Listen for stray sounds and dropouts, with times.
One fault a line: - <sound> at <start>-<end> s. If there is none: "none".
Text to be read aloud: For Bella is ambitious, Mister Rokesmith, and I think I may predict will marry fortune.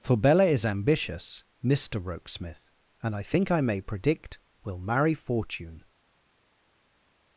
none